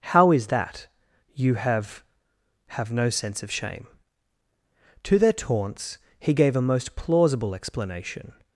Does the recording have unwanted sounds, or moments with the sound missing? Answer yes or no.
no